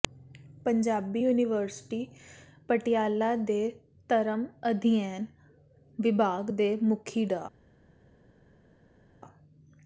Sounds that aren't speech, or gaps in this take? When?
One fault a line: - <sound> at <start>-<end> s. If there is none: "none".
none